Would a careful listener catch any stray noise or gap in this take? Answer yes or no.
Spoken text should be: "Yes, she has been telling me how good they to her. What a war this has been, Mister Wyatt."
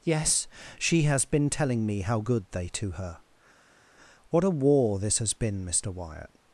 no